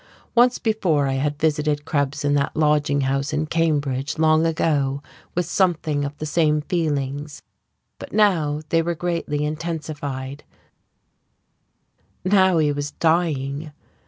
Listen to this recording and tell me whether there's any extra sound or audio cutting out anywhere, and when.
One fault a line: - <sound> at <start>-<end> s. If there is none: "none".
none